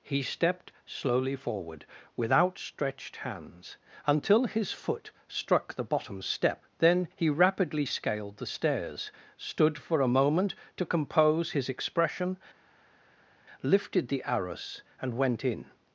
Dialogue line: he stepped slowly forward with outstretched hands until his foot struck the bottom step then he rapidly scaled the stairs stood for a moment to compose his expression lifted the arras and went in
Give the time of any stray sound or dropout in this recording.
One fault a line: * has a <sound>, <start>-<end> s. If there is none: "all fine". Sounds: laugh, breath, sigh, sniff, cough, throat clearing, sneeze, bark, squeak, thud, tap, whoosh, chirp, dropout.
all fine